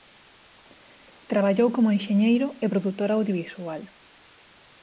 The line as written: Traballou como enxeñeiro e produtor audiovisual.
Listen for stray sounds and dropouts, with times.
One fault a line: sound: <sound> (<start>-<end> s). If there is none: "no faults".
no faults